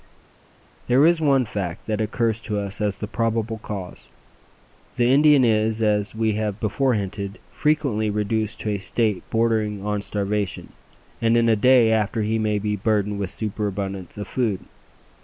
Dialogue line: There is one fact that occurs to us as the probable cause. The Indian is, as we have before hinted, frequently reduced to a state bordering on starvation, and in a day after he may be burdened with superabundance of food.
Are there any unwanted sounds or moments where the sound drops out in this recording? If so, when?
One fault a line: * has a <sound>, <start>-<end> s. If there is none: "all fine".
all fine